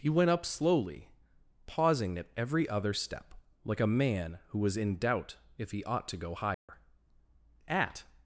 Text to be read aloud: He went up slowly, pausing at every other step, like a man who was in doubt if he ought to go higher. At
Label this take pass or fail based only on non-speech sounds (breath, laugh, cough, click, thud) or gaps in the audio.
fail